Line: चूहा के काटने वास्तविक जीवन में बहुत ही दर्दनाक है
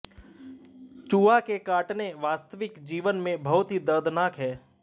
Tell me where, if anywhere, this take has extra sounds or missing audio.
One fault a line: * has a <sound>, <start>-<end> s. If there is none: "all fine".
all fine